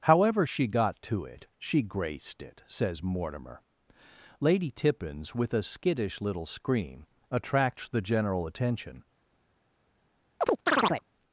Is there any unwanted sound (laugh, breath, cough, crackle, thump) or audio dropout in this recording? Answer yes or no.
yes